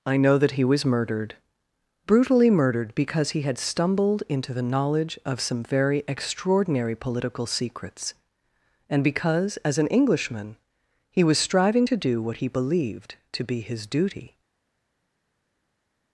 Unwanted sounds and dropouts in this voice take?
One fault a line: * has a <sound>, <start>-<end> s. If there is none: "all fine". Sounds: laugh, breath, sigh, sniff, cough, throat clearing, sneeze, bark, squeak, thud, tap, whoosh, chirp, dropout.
all fine